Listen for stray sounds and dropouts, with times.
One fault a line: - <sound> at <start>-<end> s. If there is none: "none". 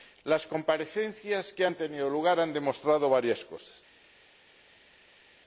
none